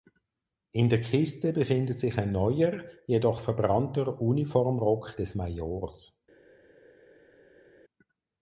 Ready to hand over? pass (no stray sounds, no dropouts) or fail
pass